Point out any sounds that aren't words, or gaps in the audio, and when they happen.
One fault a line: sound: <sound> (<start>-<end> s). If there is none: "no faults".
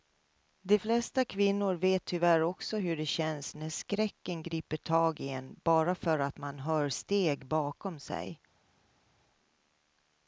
no faults